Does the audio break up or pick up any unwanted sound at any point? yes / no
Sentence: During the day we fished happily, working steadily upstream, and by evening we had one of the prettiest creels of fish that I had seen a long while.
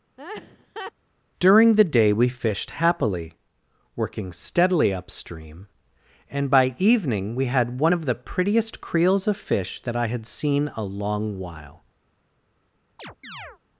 yes